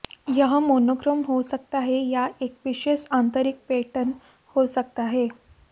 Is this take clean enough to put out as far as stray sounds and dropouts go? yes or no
yes